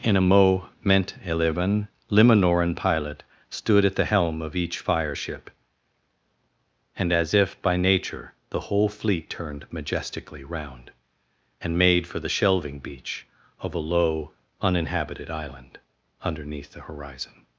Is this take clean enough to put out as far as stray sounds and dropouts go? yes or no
yes